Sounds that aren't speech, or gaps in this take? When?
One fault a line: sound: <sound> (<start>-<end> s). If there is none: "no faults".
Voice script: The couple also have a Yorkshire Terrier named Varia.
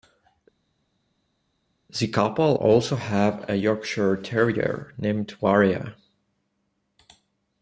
no faults